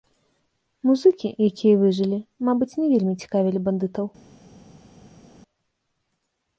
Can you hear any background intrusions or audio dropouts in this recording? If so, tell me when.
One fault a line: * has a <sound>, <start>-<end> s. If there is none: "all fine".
all fine